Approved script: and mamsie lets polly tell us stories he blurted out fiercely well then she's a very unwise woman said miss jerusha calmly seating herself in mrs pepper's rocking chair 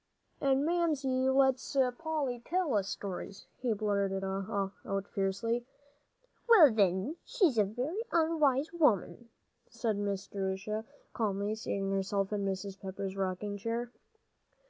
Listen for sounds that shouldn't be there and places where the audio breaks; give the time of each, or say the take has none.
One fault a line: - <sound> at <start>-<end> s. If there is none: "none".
none